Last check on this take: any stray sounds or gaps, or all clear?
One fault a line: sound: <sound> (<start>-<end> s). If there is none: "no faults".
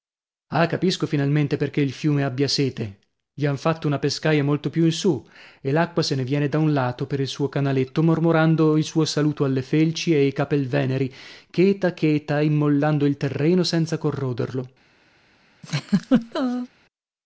sound: laugh (15.6-16.7 s)